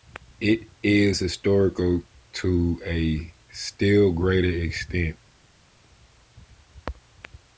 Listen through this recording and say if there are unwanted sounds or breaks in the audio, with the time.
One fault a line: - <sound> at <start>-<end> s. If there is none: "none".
none